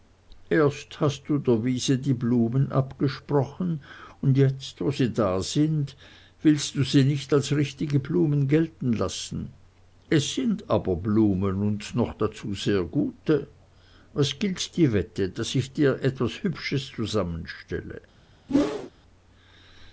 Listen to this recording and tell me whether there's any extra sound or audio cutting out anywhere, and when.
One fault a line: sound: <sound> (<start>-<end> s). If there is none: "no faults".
sound: whoosh (18.5-18.9 s)